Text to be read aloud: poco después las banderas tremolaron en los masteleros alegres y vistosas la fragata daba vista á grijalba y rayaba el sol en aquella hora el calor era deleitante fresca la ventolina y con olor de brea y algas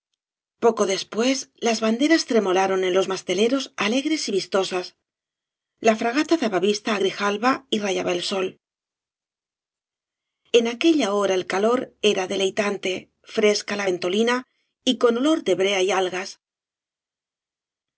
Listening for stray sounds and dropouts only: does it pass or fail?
pass